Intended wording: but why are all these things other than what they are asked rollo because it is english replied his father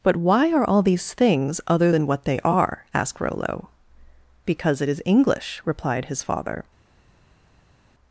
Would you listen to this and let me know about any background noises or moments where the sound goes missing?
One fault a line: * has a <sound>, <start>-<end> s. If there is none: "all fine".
all fine